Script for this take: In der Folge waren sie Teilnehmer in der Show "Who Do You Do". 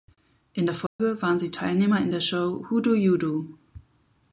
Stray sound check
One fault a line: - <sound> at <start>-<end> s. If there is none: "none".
- dropout at 0.9-1.0 s